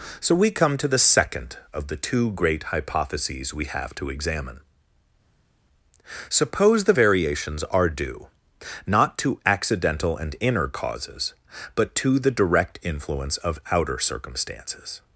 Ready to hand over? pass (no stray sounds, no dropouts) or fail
pass